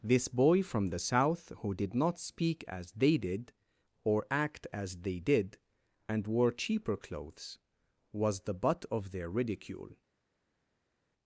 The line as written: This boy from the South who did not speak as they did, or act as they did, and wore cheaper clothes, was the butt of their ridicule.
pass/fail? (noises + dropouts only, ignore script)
pass